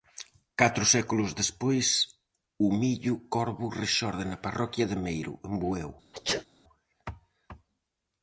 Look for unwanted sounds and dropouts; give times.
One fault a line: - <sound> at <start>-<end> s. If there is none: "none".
- sneeze at 6.1-6.5 s